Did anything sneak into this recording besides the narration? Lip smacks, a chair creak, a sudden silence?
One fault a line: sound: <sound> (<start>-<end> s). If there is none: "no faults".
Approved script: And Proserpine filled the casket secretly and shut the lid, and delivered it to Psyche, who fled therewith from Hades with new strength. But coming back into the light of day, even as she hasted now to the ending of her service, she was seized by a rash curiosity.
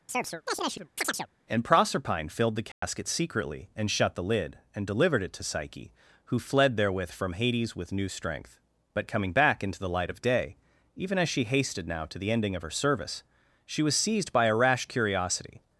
sound: chirp (0.1-1.3 s)
sound: dropout (2.7-2.8 s)